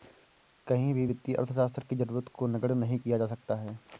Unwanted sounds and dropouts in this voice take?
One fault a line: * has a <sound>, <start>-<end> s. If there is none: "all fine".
all fine